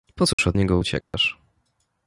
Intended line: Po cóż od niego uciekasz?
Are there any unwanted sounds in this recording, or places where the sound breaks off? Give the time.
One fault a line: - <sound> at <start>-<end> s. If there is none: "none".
- dropout at 0.3-0.4 s
- dropout at 1.0-1.1 s